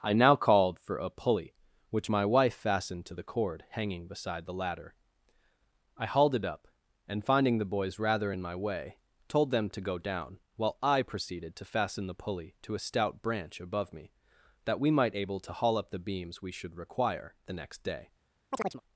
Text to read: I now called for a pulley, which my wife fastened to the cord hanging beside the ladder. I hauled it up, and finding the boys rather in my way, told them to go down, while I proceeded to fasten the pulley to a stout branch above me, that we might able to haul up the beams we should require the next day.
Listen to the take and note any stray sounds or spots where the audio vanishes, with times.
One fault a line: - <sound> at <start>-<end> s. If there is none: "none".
- chirp at 18.5-18.8 s